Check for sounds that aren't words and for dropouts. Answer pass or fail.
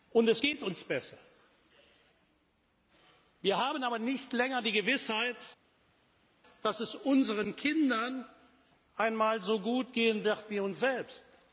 pass